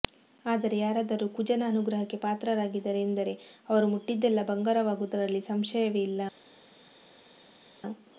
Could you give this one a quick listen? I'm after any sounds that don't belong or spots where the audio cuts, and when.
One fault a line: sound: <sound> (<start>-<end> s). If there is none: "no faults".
no faults